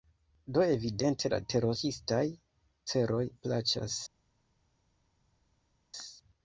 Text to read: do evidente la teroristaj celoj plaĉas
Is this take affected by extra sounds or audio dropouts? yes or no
no